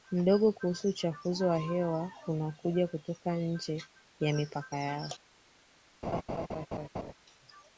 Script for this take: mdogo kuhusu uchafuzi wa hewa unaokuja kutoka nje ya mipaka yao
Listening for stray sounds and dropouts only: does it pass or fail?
fail